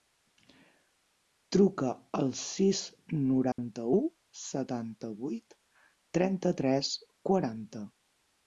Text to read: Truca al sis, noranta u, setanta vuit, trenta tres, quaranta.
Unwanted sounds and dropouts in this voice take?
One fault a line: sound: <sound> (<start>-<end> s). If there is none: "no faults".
sound: dropout (3.5-3.6 s)